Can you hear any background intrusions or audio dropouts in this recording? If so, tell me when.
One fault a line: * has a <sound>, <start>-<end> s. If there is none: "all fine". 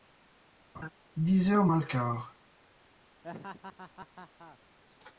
* has a laugh, 0.7-0.9 s
* has a laugh, 3.2-4.6 s